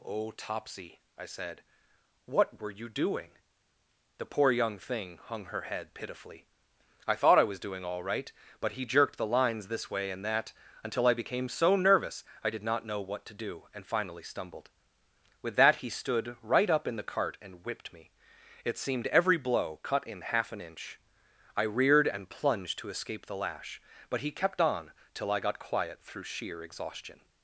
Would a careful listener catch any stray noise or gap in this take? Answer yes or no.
no